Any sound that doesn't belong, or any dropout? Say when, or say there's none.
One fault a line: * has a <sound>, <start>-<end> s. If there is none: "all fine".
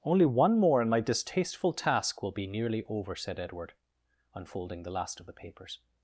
all fine